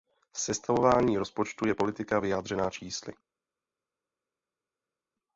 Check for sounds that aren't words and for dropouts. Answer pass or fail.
pass